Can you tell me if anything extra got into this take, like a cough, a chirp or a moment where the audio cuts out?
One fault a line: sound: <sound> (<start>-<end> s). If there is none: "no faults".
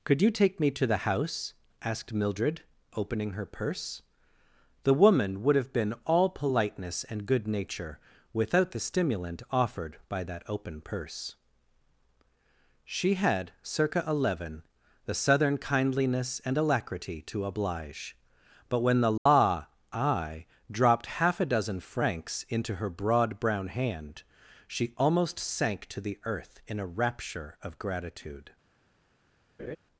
sound: dropout (19.2-19.3 s)
sound: laugh (29.6-29.8 s)